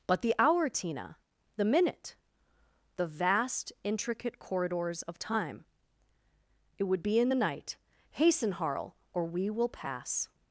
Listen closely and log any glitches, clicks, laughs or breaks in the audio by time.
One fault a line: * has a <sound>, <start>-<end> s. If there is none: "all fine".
all fine